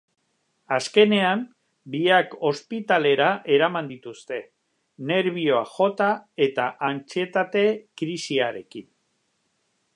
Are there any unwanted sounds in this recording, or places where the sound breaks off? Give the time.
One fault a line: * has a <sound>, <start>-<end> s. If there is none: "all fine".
all fine